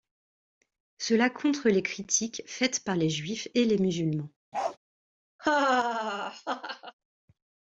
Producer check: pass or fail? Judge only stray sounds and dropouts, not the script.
fail